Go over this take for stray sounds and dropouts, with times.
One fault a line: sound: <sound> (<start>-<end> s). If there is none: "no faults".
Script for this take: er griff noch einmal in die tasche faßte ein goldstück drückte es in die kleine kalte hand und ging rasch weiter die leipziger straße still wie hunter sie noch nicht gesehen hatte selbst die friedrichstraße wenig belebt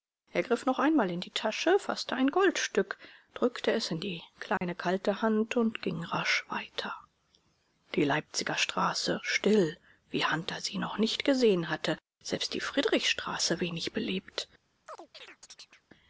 sound: dropout (4.6-4.6 s)
sound: chirp (14.9-15.8 s)